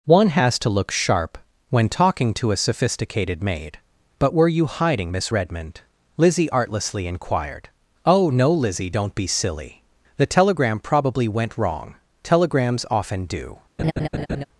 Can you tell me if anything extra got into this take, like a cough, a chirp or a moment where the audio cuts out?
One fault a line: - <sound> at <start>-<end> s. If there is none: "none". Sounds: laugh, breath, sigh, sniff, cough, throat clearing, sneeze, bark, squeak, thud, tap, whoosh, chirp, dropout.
- laugh at 13.8-14.4 s